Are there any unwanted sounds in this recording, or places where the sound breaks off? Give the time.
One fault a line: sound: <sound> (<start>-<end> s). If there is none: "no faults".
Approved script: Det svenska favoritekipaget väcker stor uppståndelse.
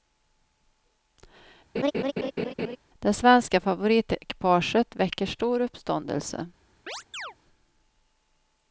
sound: laugh (1.7-2.8 s)
sound: chirp (6.9-7.3 s)